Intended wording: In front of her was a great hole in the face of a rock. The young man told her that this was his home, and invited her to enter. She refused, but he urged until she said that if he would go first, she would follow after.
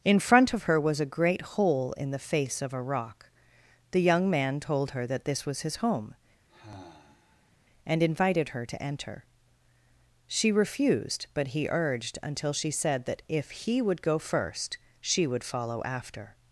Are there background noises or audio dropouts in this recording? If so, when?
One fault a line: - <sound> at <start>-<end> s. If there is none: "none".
- sigh at 6.5-7.5 s